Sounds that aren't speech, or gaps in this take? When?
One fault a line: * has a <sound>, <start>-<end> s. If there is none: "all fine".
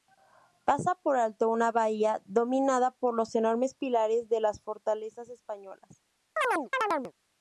* has a chirp, 6.4-7.1 s